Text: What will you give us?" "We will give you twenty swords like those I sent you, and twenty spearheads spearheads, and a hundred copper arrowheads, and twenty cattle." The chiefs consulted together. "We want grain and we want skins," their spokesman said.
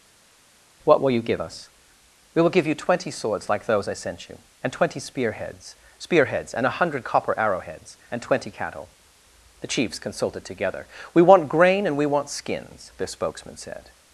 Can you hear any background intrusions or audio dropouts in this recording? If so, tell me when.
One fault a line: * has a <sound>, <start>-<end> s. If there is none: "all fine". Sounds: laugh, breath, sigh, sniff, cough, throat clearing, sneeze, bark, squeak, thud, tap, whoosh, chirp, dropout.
all fine